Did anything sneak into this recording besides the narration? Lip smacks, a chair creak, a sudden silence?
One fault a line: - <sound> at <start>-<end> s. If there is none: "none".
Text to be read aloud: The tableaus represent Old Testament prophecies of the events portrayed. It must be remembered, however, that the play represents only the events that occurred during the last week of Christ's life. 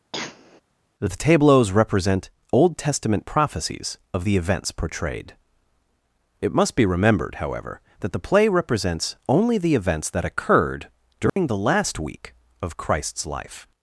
- cough at 0.1-0.6 s
- dropout at 11.3-11.4 s